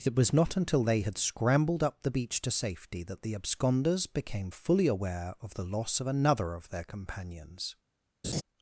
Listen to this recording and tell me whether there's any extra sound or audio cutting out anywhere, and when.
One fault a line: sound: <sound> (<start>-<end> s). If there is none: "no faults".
sound: laugh (8.2-8.4 s)